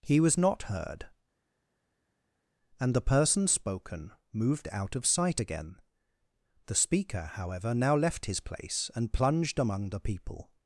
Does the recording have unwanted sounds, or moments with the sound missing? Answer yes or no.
no